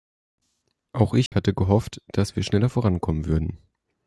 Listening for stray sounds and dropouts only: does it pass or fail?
fail